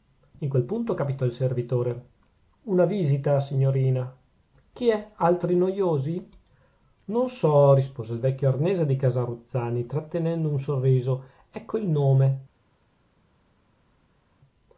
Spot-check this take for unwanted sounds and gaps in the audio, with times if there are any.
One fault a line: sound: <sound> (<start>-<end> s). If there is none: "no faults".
no faults